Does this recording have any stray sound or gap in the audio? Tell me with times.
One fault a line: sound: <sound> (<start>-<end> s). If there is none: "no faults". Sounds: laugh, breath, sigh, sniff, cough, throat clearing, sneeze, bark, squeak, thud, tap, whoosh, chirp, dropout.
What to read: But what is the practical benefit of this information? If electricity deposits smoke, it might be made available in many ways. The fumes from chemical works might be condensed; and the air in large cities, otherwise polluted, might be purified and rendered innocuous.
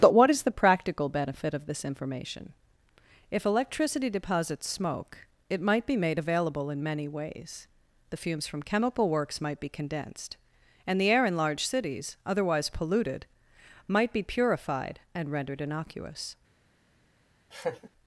sound: laugh (17.5-17.9 s)